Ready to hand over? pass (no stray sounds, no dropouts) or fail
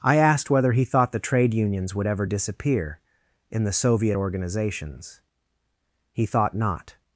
pass